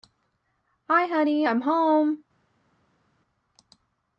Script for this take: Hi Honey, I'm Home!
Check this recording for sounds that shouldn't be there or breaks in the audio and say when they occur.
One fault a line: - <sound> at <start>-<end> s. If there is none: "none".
none